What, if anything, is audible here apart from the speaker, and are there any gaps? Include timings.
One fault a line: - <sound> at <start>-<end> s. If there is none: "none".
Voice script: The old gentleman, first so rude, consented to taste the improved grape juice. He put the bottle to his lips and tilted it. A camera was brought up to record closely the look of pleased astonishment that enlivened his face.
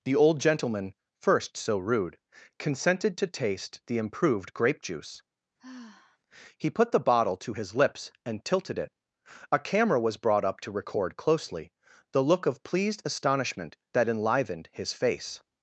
- sigh at 5.6-6.2 s